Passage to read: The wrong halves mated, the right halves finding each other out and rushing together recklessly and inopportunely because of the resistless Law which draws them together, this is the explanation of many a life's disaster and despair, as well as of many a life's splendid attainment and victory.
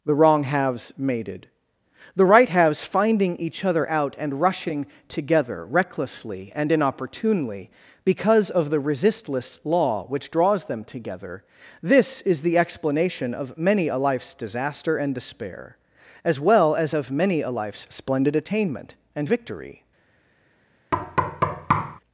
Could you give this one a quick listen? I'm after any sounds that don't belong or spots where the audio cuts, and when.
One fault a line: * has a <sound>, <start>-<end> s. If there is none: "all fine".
* has a thud, 20.9-22.0 s